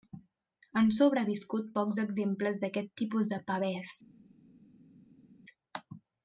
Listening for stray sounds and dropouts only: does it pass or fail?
pass